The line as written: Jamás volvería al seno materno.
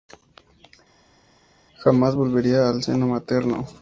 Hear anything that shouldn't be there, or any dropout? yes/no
no